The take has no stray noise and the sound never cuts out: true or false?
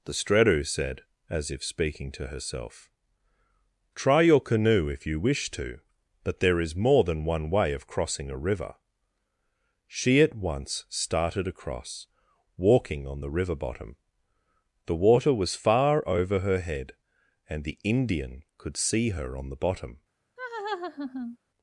false